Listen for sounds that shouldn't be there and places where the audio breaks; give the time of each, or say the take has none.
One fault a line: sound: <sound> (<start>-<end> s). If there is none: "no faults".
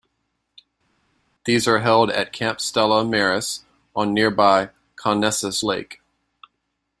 no faults